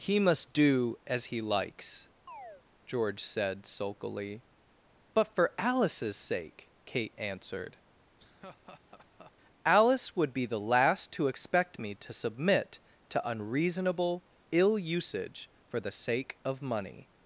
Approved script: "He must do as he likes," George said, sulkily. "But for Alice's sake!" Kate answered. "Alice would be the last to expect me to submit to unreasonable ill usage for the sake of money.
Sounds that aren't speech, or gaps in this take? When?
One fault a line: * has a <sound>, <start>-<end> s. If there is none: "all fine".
* has a chirp, 2.3-2.6 s
* has a laugh, 8.2-9.3 s